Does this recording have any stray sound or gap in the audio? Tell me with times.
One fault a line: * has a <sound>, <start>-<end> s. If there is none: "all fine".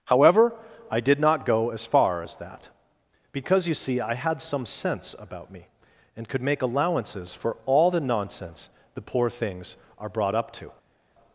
all fine